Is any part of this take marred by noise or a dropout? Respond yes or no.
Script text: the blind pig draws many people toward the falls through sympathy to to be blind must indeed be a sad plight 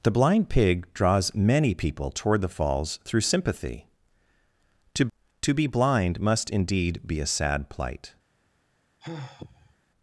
yes